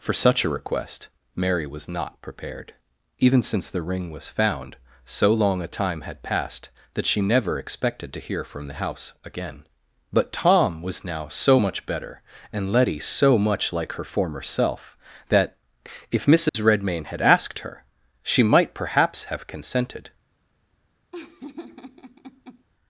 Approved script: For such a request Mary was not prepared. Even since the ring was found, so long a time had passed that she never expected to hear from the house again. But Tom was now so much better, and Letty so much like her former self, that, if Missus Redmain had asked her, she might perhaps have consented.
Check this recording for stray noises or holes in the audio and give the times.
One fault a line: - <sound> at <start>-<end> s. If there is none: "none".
- dropout at 16.5-16.5 s
- laugh at 21.1-22.6 s